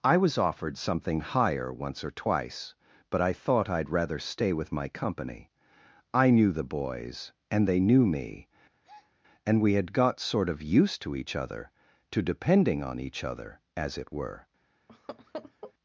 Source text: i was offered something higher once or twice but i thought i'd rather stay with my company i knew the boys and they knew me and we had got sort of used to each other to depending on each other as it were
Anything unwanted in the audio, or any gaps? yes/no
yes